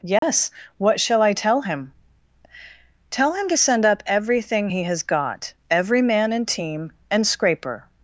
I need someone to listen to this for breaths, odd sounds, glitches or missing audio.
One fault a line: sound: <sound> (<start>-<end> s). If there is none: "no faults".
sound: dropout (0.2-0.2 s)